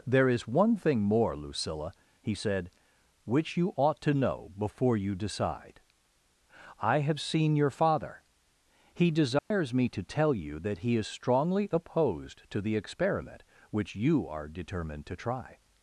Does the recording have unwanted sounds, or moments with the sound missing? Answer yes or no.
yes